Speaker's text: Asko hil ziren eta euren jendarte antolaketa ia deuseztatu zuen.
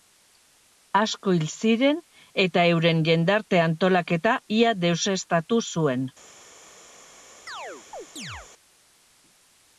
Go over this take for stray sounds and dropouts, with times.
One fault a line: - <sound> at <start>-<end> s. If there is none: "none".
- chirp at 7.5-8.5 s